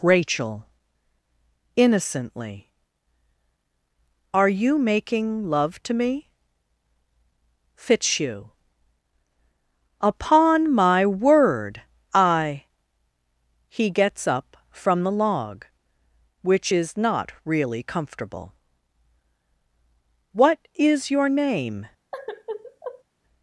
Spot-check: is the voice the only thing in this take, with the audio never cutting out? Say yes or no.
no